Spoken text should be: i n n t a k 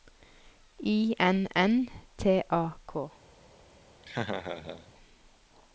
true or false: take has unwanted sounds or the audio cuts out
true